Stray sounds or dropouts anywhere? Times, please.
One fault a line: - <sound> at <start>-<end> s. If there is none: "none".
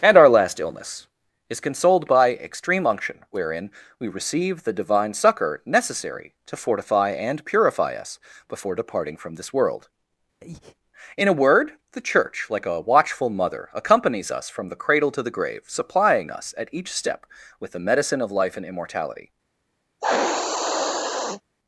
- breath at 10.4-10.8 s
- sniff at 20.0-21.4 s